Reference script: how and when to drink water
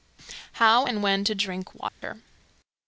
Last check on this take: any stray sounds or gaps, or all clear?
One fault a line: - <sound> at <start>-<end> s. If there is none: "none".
- dropout at 1.9-2.0 s